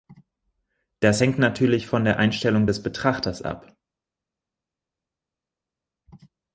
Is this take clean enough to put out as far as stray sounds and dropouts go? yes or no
yes